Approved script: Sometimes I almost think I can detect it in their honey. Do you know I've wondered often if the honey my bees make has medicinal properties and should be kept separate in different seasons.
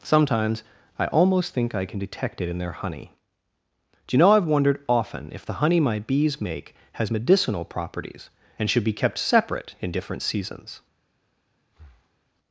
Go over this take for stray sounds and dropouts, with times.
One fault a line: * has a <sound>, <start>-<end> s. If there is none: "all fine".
* has a breath, 11.7-12.2 s